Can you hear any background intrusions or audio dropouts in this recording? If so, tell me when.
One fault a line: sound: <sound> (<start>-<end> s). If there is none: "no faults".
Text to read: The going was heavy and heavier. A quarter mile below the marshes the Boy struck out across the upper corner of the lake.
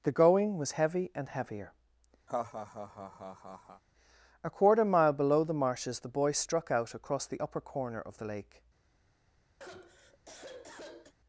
sound: laugh (2.3-3.8 s)
sound: sigh (9.6-11.1 s)